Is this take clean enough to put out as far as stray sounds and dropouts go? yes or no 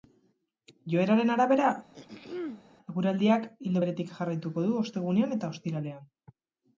no